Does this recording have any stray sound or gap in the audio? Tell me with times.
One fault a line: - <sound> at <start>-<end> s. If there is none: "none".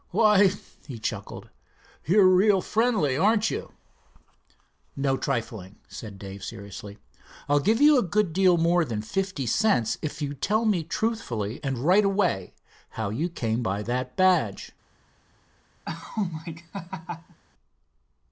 - laugh at 15.8-17.4 s